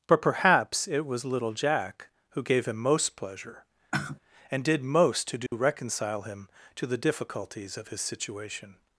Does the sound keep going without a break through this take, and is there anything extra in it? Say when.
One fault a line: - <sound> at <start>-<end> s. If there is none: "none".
- sigh at 3.9-4.2 s
- dropout at 5.5-5.5 s